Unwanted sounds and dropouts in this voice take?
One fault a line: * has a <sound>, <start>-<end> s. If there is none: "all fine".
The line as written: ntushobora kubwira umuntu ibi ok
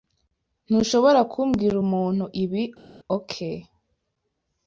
all fine